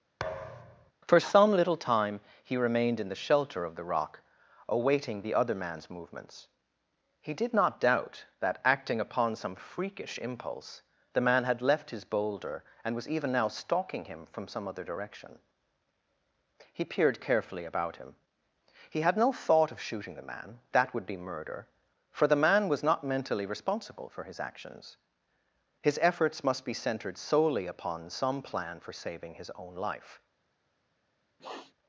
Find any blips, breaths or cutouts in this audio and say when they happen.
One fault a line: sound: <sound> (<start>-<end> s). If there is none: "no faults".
sound: thud (0.2-0.9 s)
sound: sniff (31.4-31.7 s)